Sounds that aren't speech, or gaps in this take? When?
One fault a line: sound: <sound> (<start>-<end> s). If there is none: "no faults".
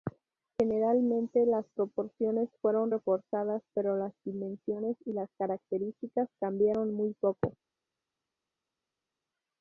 no faults